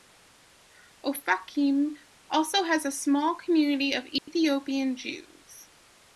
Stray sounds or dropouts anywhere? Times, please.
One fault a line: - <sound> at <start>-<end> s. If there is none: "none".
- dropout at 4.2-4.3 s